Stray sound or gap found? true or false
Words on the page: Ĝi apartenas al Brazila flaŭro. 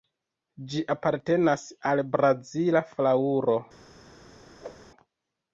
true